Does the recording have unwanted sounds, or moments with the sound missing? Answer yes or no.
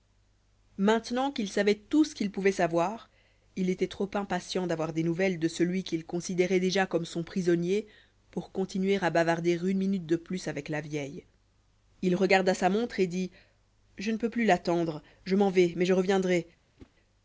yes